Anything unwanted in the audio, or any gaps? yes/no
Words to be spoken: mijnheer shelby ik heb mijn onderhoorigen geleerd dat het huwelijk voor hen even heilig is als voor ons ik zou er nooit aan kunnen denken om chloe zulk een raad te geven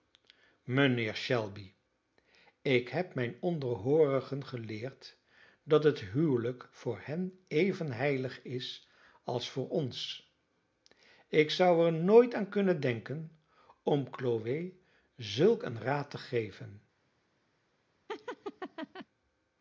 yes